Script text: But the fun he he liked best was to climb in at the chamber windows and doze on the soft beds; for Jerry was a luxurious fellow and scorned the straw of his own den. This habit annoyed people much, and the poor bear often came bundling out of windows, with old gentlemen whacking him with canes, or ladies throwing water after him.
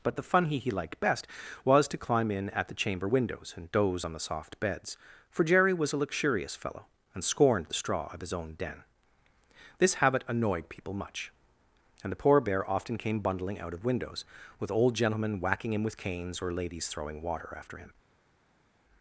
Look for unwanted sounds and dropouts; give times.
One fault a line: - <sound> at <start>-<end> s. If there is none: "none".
none